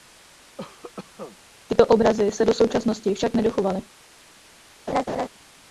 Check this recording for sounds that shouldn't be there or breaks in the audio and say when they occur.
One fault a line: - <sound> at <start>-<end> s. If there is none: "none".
- cough at 0.6-1.4 s
- laugh at 4.9-5.3 s